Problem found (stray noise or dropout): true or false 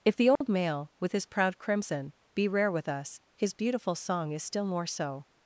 true